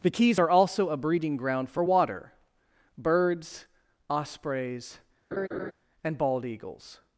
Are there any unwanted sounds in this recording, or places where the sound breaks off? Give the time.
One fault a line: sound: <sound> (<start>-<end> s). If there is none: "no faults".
sound: laugh (5.3-5.7 s)